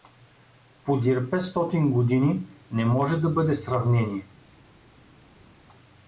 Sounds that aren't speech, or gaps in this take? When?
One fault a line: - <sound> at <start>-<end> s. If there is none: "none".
none